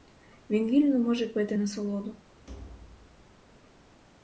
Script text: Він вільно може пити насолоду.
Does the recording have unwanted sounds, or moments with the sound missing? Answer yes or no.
yes